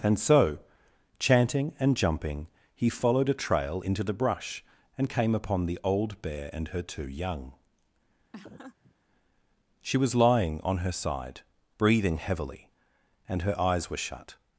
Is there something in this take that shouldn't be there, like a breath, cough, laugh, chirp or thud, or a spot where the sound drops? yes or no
yes